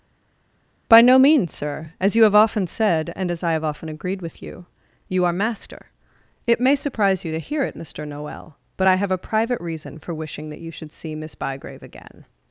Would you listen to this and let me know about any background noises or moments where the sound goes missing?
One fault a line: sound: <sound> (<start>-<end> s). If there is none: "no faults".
no faults